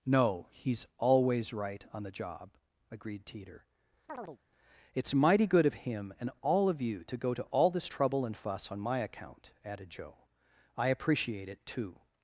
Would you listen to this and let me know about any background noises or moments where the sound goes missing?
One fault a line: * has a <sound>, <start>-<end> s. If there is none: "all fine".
* has a chirp, 4.1-4.4 s